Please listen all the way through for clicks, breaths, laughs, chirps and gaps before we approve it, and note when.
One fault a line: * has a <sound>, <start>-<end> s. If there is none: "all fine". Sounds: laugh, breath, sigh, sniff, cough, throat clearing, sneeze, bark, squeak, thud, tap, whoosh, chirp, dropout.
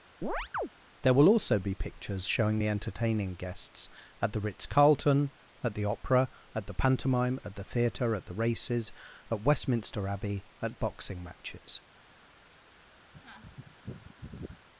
* has a chirp, 0.2-0.7 s
* has a sneeze, 13.1-14.7 s